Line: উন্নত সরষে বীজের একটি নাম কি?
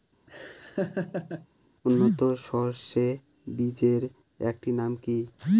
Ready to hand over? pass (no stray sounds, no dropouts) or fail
fail